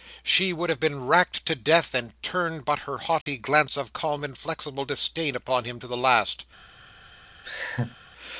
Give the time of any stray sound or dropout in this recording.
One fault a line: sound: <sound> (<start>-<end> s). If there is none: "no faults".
sound: dropout (3.2-3.3 s)
sound: laugh (7.4-8.0 s)